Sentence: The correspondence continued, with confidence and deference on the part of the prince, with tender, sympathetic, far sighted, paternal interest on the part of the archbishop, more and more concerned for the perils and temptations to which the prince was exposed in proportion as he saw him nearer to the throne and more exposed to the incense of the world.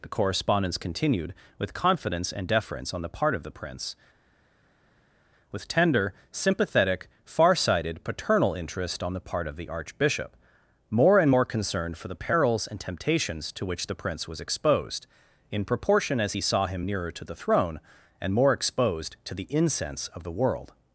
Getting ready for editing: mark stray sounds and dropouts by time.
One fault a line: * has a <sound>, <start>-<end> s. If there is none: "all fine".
all fine